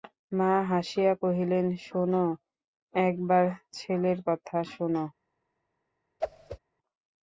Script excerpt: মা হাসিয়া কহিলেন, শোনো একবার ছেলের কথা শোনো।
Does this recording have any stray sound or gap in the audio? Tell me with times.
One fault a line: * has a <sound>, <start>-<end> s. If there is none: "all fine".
* has a whoosh, 6.2-6.6 s